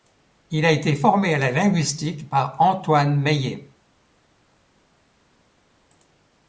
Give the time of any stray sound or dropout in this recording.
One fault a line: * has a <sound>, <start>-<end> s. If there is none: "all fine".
all fine